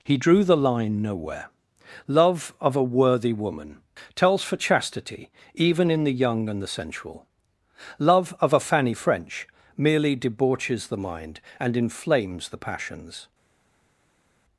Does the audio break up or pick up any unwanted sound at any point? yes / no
no